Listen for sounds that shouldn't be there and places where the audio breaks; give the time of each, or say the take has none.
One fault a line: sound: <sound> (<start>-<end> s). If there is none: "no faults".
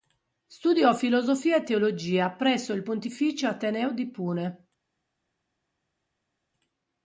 no faults